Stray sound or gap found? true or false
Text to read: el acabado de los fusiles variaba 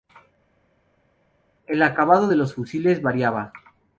false